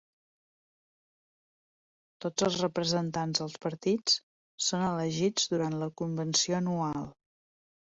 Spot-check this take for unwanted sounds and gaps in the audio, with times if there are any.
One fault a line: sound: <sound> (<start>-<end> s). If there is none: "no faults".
no faults